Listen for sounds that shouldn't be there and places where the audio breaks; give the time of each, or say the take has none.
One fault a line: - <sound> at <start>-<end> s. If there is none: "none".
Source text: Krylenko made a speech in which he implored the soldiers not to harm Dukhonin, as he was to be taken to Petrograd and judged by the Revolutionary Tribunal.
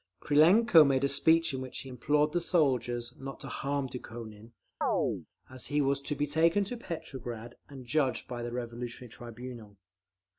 - chirp at 4.8-5.3 s